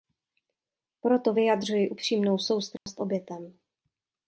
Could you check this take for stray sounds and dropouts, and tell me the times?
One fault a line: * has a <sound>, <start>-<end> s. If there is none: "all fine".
* has a dropout, 2.8-2.9 s